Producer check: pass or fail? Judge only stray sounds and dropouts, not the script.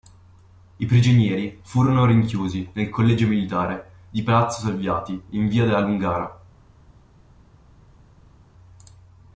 pass